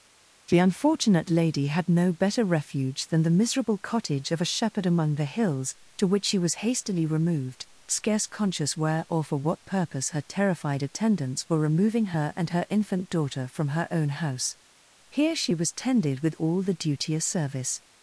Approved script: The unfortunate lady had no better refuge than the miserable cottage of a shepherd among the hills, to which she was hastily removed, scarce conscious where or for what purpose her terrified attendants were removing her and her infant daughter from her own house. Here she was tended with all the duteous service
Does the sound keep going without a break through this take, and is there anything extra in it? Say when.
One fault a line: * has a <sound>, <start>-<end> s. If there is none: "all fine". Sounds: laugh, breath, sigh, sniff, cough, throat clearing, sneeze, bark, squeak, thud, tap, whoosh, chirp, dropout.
all fine